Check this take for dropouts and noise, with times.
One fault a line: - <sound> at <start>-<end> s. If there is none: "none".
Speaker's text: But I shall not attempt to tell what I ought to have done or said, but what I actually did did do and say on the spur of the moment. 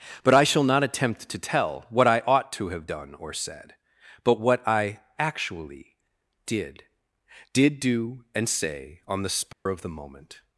- dropout at 9.5-9.7 s